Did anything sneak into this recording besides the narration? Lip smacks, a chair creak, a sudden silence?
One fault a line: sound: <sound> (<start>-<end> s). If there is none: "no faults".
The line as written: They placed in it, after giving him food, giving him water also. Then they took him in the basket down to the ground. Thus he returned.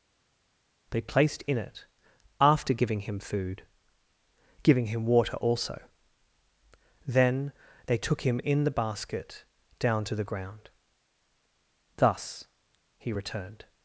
no faults